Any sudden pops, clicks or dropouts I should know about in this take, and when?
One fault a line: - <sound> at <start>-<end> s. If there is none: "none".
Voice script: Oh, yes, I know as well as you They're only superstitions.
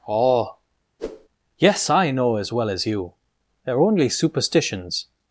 - whoosh at 1.0-1.3 s